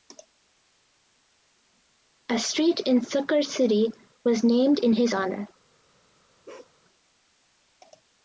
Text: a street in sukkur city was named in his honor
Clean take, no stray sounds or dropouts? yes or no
no